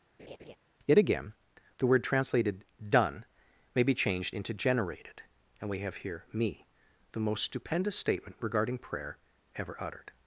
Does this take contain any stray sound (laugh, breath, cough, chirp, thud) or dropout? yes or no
yes